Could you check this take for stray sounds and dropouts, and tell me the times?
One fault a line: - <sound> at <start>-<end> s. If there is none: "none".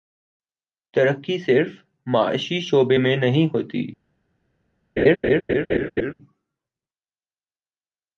- laugh at 5.0-6.1 s